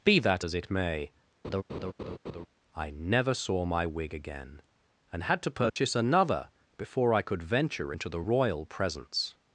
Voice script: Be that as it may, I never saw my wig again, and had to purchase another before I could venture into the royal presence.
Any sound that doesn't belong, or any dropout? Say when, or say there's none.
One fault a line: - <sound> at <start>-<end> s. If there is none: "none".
- laugh at 1.4-2.5 s
- dropout at 5.7-5.8 s